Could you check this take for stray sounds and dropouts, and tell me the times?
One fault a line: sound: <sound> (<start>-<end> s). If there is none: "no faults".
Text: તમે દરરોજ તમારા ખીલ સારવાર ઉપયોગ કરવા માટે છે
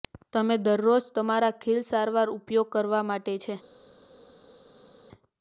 no faults